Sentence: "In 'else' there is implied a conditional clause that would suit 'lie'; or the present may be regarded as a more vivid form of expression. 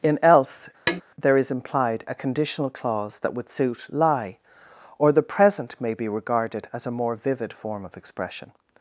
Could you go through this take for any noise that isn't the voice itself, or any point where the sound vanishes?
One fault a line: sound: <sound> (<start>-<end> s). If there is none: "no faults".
sound: tap (0.9-1.0 s)